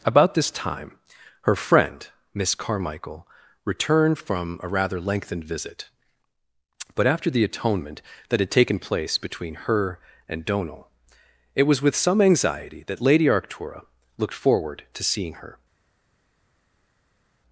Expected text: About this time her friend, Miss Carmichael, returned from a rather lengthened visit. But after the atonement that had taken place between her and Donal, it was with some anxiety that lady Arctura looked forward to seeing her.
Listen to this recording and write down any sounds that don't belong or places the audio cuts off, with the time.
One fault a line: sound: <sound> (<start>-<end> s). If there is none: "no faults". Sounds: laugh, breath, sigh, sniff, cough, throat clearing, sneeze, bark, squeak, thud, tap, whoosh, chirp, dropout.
no faults